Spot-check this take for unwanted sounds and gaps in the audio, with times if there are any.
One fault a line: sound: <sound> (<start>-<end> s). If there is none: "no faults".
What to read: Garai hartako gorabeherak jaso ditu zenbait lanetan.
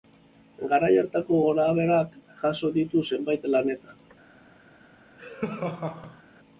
sound: laugh (5.2-6.2 s)